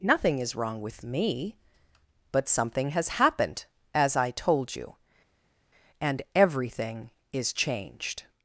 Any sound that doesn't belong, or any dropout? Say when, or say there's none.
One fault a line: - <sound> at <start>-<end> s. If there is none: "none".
none